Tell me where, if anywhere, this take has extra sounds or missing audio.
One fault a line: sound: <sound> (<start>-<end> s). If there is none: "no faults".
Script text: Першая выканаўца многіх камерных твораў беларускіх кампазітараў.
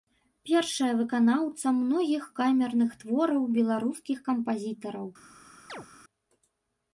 sound: chirp (5.7-5.9 s)